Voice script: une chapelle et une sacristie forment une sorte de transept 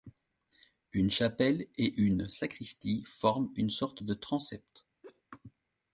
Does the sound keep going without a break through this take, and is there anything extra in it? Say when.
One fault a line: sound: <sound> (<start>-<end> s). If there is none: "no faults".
sound: laugh (5.0-5.2 s)